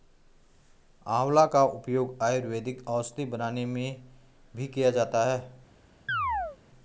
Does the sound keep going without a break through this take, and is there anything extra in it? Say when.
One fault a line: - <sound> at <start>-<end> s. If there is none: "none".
- chirp at 6.1-6.6 s